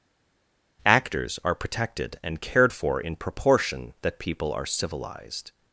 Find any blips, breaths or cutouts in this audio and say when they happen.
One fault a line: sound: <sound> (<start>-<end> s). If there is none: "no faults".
no faults